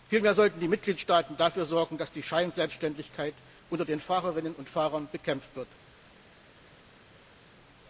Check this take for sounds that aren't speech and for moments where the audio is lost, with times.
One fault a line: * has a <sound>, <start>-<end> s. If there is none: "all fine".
all fine